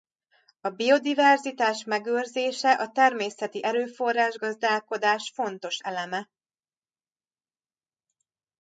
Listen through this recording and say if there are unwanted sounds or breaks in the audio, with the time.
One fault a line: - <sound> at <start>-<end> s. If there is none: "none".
none